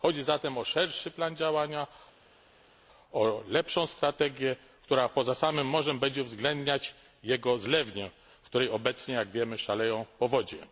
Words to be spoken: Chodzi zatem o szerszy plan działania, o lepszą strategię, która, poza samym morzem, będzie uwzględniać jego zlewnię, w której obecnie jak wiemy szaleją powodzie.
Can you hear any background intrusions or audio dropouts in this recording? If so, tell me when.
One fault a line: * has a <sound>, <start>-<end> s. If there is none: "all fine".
all fine